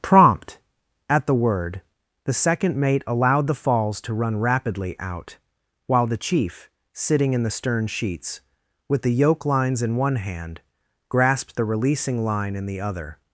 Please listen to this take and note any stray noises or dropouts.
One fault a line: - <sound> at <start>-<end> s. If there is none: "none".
none